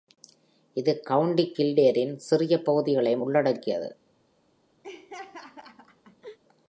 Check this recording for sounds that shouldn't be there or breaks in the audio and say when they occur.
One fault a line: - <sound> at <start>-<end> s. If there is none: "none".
- laugh at 4.8-6.4 s